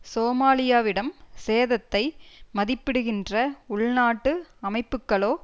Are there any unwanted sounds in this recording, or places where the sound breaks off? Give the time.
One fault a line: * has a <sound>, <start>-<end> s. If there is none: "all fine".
all fine